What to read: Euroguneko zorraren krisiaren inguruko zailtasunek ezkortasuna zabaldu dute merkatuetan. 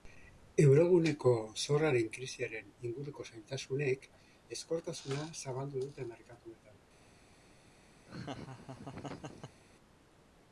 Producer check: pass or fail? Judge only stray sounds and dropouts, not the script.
fail